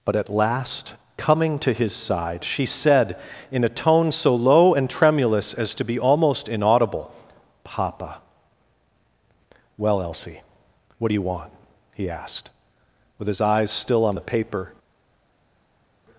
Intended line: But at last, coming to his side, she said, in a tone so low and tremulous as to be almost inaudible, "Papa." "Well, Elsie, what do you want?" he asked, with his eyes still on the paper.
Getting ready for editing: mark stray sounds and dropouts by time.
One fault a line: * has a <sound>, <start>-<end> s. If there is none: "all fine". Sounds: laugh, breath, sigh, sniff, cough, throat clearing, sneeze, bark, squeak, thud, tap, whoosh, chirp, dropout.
all fine